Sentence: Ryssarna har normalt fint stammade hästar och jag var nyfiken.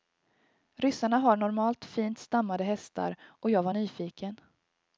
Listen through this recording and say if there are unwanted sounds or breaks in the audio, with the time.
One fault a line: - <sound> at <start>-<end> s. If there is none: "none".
none